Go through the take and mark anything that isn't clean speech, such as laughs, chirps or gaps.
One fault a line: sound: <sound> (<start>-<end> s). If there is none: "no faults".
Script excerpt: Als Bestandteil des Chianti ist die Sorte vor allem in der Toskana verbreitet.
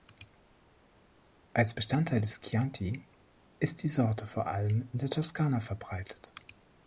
no faults